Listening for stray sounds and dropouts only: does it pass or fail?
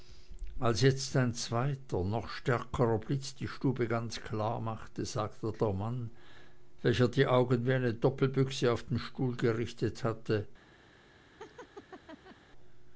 fail